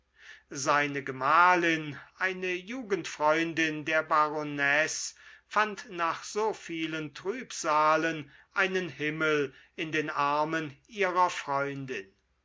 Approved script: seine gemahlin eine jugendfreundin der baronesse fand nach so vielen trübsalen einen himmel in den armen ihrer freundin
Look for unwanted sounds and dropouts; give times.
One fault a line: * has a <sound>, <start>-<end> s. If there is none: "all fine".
all fine